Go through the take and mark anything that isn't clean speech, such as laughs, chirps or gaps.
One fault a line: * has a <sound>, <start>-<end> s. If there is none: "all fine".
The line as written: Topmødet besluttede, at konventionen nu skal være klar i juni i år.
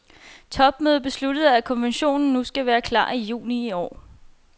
all fine